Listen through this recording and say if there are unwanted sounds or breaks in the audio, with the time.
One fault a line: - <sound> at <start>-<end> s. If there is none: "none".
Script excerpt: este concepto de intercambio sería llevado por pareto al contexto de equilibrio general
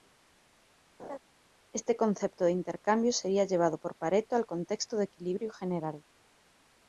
- laugh at 1.0-1.2 s